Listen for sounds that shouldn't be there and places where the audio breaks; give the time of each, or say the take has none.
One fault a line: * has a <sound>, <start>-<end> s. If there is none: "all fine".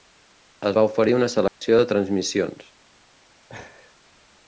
* has a dropout, 1.5-1.6 s
* has a laugh, 3.5-4.0 s